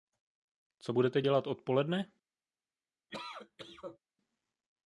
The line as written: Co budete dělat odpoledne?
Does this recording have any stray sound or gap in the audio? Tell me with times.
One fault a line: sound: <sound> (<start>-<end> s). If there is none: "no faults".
sound: cough (3.1-4.0 s)